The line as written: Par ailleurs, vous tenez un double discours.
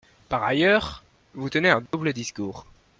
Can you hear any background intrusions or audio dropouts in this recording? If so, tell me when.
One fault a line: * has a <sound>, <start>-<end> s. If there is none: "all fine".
* has a dropout, 1.9-1.9 s